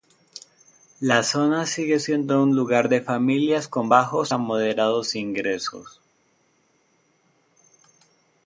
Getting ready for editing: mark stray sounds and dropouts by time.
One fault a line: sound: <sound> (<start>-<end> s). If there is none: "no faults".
no faults